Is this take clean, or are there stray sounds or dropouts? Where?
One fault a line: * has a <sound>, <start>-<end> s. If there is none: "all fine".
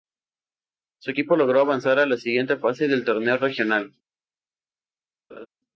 * has a laugh, 5.3-5.5 s